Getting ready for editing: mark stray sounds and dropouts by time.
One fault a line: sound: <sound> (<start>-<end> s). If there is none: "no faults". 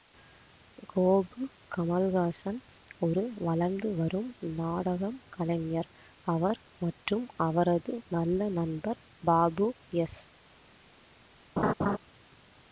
sound: laugh (11.6-12.0 s)